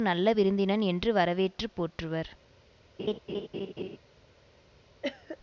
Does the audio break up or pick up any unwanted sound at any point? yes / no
yes